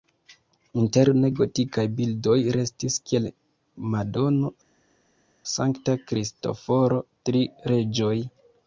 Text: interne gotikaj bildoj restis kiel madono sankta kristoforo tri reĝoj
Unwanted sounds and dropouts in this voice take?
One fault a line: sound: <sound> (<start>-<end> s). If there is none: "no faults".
no faults